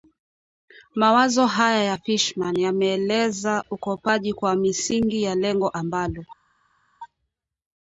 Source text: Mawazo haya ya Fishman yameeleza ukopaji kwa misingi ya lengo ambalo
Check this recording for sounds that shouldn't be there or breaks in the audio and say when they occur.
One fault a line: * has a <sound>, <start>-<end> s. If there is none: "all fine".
all fine